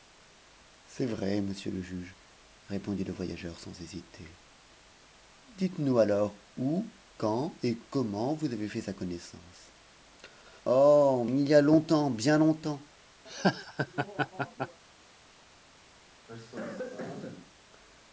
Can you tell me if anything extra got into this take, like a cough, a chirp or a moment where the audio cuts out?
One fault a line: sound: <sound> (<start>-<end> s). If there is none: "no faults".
sound: laugh (13.3-14.8 s)
sound: cough (16.3-17.5 s)